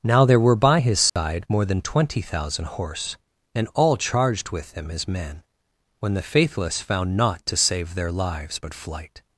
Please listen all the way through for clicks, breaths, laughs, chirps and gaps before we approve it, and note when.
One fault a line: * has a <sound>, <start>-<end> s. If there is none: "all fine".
* has a dropout, 1.1-1.2 s